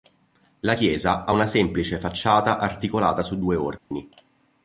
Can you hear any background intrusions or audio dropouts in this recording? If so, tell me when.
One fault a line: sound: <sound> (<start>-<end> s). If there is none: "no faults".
sound: dropout (3.8-3.9 s)